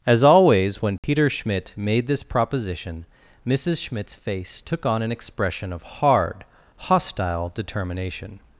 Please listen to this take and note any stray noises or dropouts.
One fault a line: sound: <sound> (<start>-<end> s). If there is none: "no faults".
sound: dropout (1.0-1.0 s)